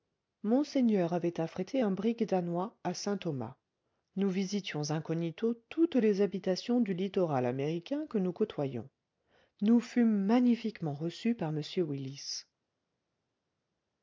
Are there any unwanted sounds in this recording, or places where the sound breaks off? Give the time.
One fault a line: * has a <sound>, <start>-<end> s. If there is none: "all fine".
all fine